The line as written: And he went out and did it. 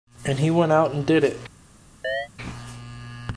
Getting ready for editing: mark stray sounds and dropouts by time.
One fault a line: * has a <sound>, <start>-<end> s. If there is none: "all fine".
* has a chirp, 2.0-2.3 s